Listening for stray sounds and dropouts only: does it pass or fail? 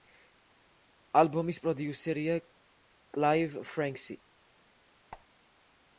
fail